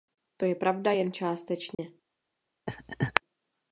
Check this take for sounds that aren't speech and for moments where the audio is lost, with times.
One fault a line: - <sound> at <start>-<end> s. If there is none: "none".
- dropout at 1.7-1.8 s
- laugh at 2.7-3.2 s